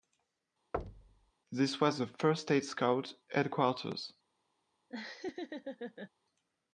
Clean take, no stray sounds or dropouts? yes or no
no